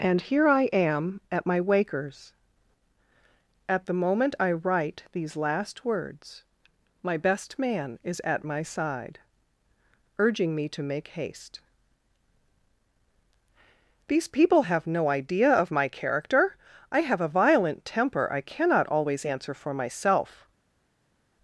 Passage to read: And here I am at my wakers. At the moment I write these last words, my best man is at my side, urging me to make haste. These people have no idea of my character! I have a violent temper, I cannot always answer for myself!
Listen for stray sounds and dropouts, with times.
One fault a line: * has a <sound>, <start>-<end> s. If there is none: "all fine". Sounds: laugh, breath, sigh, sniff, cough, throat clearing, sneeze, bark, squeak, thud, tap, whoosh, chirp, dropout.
all fine